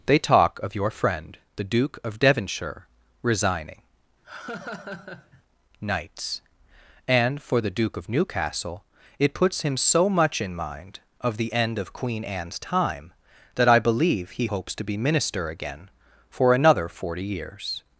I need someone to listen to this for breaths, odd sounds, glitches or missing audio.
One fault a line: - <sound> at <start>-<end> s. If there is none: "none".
- laugh at 4.2-5.4 s